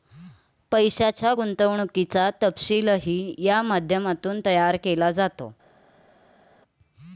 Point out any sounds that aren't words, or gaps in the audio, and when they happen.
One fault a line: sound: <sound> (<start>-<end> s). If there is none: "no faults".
no faults